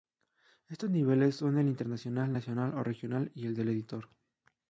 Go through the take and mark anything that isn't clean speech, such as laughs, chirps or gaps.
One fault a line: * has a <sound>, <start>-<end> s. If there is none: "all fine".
all fine